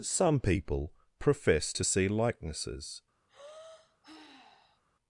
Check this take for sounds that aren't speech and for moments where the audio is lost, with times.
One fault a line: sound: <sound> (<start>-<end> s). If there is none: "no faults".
sound: sigh (3.3-4.8 s)